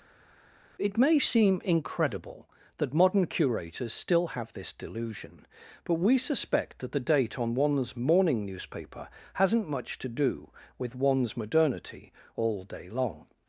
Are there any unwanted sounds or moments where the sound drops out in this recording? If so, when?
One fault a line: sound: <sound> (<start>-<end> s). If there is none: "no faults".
no faults